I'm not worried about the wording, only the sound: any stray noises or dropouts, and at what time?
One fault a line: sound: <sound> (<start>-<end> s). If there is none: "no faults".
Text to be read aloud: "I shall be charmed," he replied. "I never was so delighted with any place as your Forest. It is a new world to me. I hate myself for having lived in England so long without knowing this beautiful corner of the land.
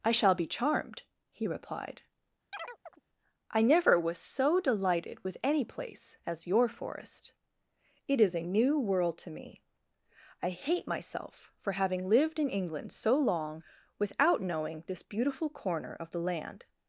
sound: chirp (2.5-3.0 s)